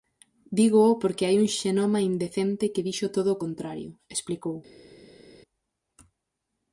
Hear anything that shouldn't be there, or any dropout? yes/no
no